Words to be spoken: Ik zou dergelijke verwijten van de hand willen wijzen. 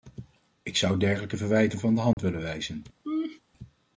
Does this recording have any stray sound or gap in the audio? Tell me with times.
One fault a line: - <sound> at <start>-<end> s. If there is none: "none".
- dropout at 2.1-2.2 s
- laugh at 3.0-3.4 s